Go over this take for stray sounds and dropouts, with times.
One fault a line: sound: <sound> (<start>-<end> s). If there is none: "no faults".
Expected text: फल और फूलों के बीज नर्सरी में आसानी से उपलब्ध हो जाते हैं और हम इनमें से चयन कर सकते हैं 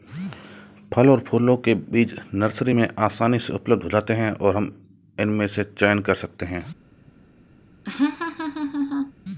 sound: laugh (7.8-9.1 s)